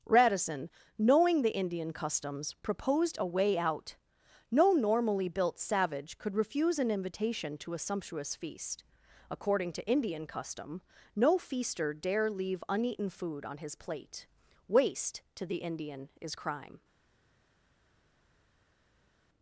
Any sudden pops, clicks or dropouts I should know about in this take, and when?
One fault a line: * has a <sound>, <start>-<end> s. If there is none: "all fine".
all fine